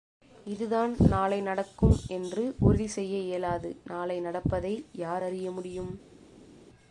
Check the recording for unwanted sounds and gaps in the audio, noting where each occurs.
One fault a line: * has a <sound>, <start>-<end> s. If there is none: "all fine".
all fine